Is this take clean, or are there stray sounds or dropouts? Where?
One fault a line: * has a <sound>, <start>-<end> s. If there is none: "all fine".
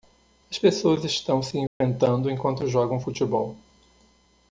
* has a dropout, 1.7-1.8 s